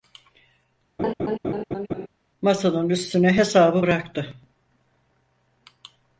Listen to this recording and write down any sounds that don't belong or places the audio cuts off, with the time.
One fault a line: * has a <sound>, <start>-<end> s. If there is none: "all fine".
* has a laugh, 1.0-2.1 s